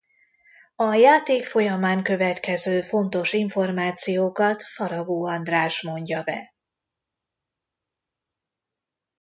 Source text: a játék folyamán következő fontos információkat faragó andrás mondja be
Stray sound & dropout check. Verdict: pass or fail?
pass